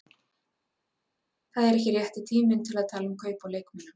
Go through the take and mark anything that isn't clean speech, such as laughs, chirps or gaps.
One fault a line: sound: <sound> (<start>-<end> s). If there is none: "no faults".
no faults